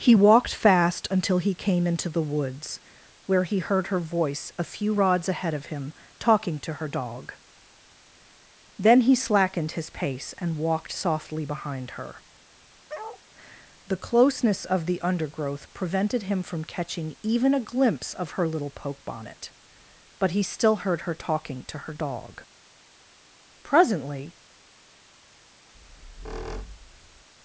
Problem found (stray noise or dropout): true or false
true